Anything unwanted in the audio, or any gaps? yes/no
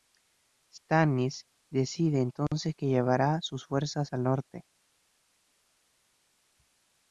no